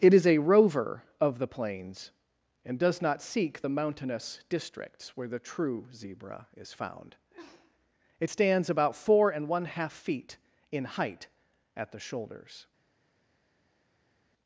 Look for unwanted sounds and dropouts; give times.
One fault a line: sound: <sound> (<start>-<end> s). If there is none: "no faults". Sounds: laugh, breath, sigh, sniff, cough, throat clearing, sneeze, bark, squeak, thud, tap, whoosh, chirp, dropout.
no faults